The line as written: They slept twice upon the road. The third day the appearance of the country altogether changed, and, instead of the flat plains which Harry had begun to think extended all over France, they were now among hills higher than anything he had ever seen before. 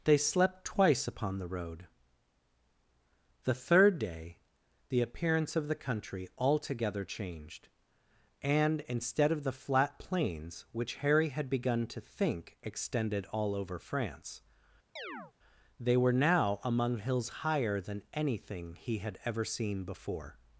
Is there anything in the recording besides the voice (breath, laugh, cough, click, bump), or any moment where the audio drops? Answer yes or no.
yes